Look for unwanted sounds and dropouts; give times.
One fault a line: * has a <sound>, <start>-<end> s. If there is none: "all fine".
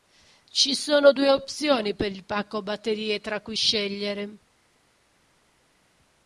all fine